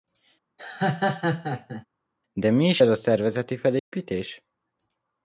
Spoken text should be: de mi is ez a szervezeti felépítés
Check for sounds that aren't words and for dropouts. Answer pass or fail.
fail